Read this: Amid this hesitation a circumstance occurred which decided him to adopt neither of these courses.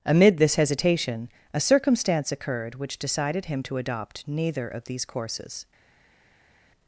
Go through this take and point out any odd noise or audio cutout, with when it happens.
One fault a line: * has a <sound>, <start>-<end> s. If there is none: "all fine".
all fine